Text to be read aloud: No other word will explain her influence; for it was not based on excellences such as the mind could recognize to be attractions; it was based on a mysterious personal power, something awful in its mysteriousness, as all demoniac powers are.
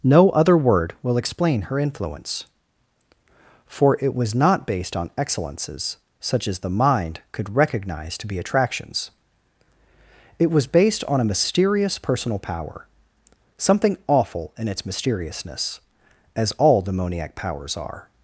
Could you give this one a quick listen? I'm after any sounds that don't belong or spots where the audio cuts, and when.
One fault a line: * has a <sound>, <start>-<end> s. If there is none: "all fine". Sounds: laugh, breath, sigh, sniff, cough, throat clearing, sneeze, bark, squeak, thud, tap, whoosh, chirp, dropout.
all fine